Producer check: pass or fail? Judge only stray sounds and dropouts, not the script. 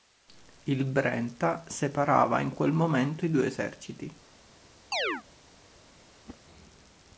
fail